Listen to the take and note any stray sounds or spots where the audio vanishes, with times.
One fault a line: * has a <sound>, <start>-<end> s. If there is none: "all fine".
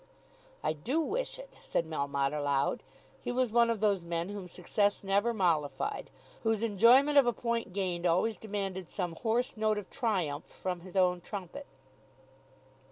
all fine